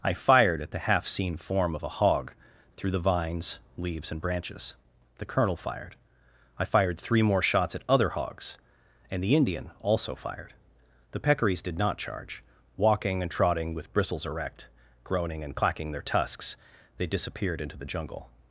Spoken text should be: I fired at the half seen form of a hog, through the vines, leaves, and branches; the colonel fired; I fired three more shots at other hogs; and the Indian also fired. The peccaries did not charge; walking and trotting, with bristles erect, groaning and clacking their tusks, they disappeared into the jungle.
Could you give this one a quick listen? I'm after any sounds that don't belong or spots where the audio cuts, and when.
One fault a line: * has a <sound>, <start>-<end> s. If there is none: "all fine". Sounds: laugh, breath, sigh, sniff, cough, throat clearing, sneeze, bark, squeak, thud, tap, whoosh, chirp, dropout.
all fine